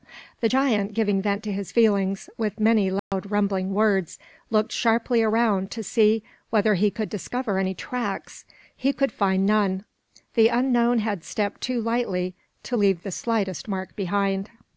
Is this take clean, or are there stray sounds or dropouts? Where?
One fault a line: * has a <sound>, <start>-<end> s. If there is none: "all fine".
* has a dropout, 3.0-3.1 s